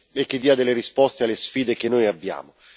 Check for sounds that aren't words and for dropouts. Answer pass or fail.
pass